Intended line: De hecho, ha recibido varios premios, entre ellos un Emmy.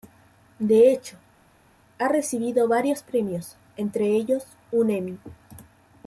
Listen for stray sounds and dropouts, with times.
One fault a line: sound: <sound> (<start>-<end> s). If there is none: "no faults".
no faults